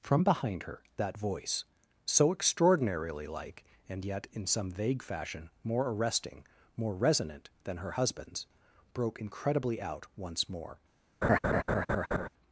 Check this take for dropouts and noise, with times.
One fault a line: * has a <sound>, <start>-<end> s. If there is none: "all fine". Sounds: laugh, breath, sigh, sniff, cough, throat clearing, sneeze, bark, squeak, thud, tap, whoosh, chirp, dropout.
* has a laugh, 11.2-12.3 s